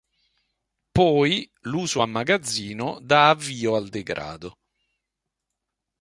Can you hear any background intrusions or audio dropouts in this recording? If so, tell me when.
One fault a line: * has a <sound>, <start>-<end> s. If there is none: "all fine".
all fine